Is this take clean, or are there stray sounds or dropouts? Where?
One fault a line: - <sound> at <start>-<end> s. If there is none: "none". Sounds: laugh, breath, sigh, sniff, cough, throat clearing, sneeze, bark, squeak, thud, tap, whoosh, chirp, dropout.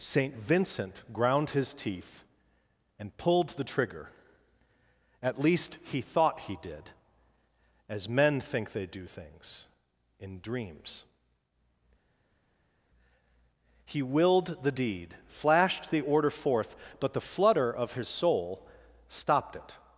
none